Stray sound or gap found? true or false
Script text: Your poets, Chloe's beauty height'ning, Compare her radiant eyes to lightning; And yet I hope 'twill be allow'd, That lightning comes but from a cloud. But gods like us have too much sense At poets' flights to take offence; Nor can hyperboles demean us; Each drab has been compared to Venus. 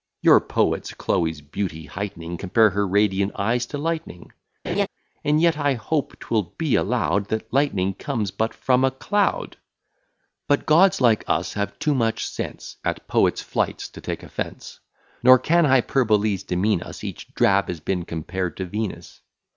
true